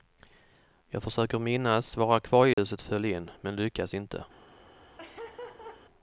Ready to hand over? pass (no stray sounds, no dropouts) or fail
fail